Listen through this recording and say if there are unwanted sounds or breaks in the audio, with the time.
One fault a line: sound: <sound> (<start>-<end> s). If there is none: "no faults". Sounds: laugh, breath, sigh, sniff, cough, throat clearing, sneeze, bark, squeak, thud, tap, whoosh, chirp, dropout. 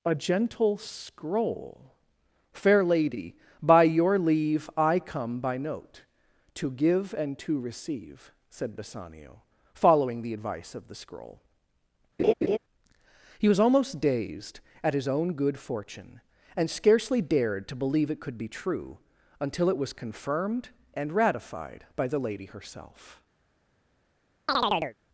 sound: laugh (12.2-12.6 s)
sound: chirp (24.5-25.0 s)